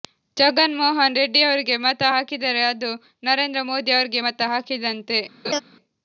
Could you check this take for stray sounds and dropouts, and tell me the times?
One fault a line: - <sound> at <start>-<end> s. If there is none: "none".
- laugh at 5.4-5.6 s